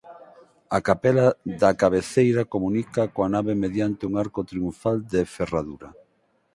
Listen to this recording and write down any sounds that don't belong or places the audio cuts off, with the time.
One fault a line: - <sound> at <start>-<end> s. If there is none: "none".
none